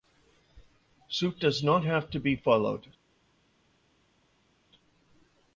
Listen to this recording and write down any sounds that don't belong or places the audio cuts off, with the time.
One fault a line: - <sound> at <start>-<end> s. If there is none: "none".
none